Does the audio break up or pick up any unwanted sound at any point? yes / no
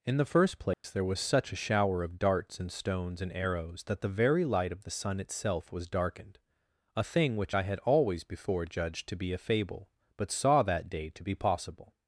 yes